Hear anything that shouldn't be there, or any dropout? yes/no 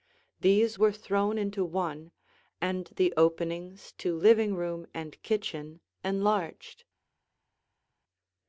no